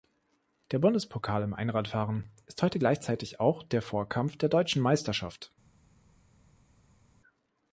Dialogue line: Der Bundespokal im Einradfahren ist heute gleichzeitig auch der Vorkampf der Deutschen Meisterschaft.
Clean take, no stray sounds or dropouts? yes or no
yes